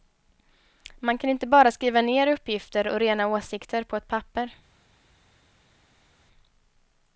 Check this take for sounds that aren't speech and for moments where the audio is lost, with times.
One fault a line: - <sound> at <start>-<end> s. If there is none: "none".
none